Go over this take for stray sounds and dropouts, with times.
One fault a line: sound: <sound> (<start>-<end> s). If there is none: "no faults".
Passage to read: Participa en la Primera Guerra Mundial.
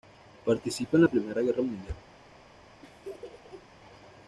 sound: laugh (2.8-3.7 s)